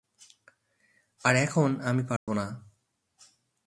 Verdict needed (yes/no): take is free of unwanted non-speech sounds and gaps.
no